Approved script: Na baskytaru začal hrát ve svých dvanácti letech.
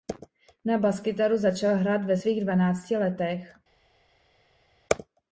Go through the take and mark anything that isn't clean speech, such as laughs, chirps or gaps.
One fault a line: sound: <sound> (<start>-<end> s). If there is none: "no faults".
no faults